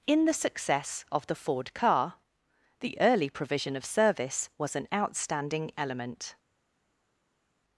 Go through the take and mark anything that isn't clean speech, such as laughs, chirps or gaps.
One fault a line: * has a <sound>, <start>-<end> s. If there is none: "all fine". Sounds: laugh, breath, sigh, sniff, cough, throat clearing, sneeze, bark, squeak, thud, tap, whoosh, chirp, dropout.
all fine